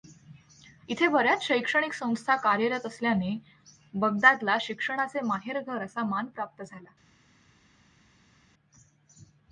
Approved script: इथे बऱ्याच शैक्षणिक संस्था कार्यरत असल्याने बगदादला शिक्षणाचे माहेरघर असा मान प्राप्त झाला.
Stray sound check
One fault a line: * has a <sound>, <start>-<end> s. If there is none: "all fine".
all fine